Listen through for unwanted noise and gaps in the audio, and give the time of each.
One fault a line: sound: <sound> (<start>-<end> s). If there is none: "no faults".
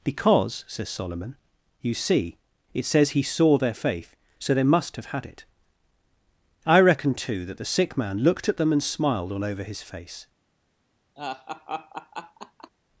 sound: laugh (11.2-12.7 s)